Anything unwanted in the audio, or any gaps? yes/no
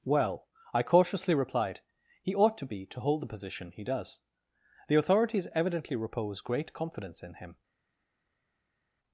no